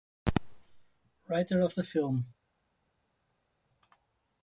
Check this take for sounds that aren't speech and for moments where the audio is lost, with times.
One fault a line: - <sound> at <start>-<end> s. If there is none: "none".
none